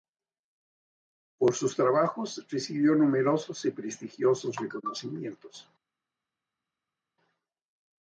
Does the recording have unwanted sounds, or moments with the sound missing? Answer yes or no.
no